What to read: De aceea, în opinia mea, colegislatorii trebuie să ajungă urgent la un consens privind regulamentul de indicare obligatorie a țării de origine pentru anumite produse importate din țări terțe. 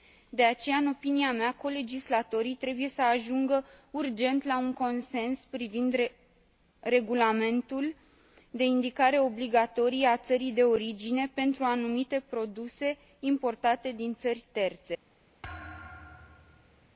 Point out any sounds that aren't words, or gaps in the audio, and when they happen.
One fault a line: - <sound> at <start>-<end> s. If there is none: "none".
- thud at 15.4-16.9 s